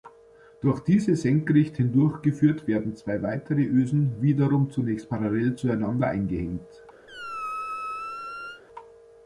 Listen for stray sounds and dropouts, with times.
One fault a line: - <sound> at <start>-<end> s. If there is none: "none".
- squeak at 7.1-8.6 s